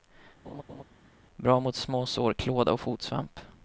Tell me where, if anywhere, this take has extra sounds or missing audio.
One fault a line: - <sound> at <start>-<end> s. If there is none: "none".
- laugh at 0.4-0.8 s